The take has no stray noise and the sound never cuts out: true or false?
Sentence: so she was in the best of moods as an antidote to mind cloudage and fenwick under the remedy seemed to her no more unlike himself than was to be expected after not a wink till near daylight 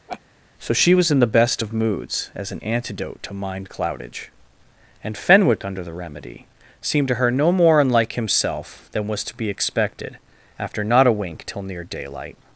false